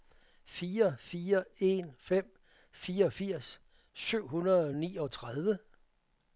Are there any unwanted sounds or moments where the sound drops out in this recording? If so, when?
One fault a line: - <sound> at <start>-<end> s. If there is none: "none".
none